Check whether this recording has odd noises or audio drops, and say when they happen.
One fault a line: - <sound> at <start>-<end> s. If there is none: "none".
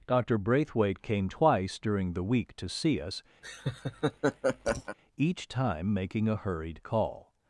- laugh at 3.4-5.0 s